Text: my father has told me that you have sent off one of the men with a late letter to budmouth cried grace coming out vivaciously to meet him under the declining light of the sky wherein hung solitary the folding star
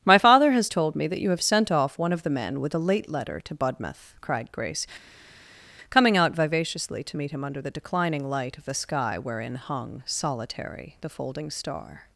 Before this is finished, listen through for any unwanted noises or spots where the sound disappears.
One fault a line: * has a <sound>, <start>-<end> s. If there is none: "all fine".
all fine